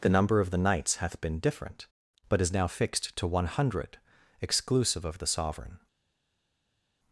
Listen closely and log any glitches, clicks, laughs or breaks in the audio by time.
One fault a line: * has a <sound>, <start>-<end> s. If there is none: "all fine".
all fine